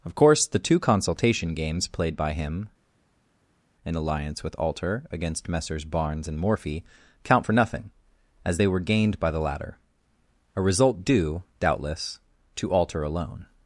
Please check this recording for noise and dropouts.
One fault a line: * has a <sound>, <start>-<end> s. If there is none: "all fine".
all fine